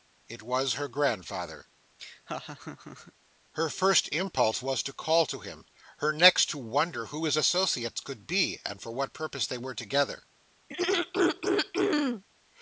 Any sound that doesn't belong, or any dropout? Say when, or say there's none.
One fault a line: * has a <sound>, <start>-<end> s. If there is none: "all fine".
* has a laugh, 2.0-3.1 s
* has a throat clearing, 10.7-12.2 s